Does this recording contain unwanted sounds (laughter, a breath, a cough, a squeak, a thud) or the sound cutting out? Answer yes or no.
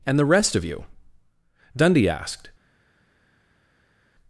no